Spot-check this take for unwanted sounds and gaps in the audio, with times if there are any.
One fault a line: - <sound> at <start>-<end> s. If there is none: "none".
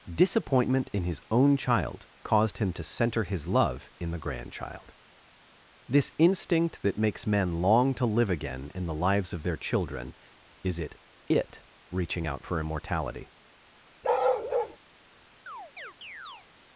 - bark at 14.0-14.8 s
- chirp at 15.5-16.5 s